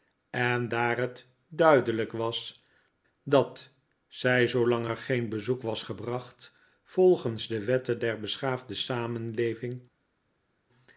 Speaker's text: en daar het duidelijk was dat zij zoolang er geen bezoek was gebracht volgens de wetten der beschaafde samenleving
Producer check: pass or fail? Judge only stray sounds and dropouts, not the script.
pass